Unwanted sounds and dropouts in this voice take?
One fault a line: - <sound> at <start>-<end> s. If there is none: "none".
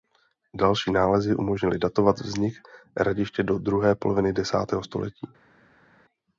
none